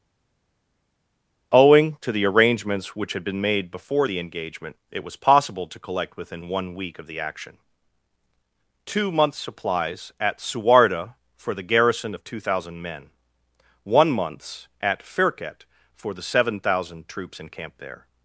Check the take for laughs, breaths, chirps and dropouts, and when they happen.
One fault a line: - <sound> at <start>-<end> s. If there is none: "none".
none